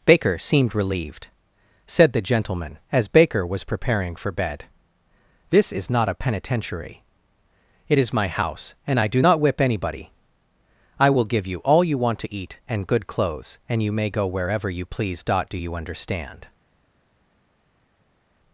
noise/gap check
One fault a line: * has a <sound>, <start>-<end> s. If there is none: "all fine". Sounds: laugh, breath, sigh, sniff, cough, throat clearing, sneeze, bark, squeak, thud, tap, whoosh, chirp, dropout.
all fine